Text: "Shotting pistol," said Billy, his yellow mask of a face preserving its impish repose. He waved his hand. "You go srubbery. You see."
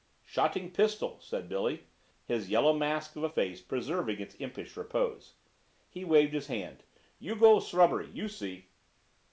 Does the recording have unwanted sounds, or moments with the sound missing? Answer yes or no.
no